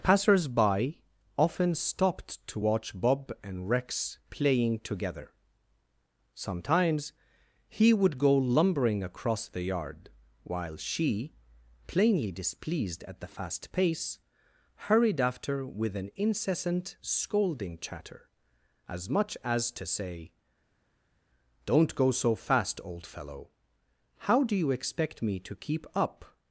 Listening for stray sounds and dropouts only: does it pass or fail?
pass